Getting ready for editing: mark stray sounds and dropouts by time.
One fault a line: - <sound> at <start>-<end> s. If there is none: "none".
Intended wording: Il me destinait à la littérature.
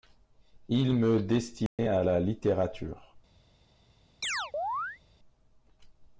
- dropout at 1.7-1.8 s
- chirp at 4.2-5.0 s